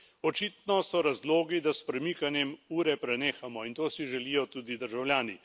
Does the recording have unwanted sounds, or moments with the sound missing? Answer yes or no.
no